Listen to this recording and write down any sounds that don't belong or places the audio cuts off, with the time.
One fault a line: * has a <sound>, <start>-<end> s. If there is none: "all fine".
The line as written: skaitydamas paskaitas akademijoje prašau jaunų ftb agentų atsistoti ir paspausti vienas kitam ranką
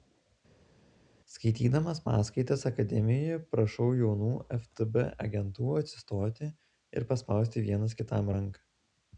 all fine